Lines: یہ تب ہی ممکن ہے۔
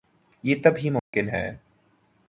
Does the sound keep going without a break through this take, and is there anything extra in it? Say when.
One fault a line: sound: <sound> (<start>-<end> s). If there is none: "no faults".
sound: dropout (1.0-1.1 s)